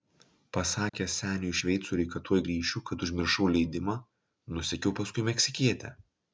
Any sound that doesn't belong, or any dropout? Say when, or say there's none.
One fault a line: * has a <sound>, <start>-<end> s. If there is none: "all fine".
* has a dropout, 0.9-0.9 s